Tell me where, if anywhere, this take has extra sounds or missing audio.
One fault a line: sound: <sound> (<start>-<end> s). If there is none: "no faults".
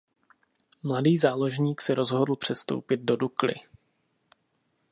no faults